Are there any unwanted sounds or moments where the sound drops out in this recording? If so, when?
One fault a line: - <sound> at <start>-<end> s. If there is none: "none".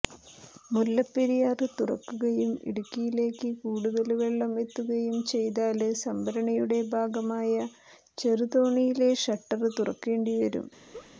- laugh at 10.9-11.1 s